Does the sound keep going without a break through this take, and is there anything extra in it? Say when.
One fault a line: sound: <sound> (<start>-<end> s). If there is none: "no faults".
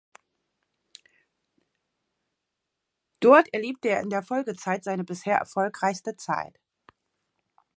no faults